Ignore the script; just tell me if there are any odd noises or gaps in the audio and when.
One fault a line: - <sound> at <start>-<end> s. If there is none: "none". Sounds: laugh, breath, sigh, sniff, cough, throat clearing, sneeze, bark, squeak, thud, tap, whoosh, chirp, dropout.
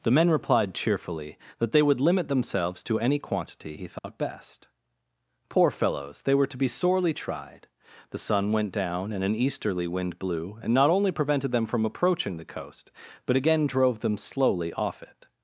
- dropout at 4.0-4.0 s